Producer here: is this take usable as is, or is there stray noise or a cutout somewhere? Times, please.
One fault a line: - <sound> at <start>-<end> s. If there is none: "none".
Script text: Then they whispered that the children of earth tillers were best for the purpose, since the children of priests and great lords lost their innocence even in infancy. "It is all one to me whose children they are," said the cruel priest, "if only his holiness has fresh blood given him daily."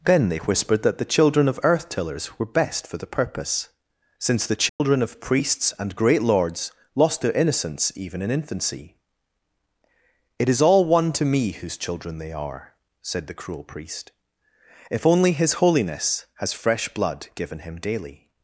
- dropout at 4.7-4.8 s